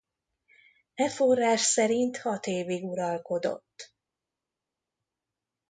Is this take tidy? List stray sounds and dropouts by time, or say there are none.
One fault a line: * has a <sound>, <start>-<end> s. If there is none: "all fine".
all fine